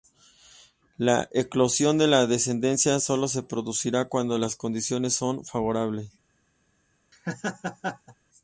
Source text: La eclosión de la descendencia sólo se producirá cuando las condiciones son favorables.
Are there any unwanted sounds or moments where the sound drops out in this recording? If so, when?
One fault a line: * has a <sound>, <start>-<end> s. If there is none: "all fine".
* has a laugh, 7.1-8.1 s